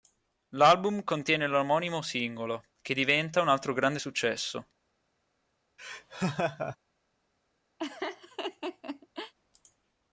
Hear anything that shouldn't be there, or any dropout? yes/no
yes